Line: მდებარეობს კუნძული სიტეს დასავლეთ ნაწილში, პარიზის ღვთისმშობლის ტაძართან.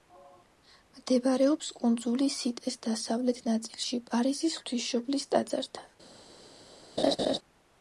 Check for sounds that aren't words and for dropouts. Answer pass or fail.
fail